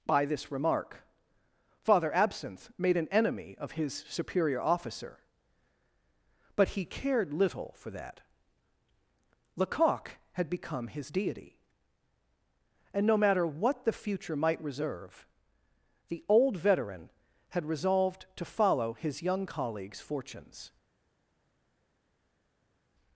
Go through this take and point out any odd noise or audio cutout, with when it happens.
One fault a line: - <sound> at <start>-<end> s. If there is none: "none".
none